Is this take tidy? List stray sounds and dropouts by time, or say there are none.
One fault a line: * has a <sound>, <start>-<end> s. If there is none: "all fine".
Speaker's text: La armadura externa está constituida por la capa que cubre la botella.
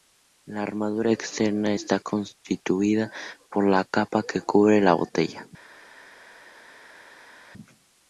all fine